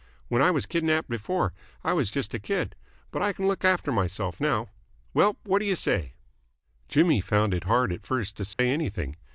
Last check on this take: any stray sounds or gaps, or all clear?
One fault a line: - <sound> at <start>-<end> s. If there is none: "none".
- dropout at 8.5-8.6 s